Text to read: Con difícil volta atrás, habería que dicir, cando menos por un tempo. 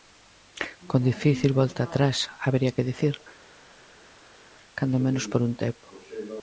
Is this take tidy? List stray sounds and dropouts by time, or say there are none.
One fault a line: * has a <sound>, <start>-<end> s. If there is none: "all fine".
all fine